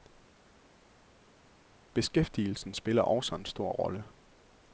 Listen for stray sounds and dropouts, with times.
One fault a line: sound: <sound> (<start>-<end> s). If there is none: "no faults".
no faults